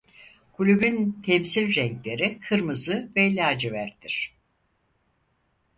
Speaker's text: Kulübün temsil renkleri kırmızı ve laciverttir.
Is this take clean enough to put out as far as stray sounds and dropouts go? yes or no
yes